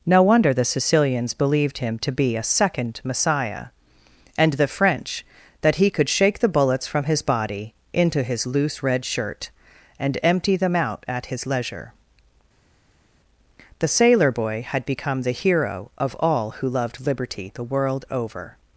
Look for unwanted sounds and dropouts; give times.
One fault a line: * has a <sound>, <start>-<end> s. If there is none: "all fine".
all fine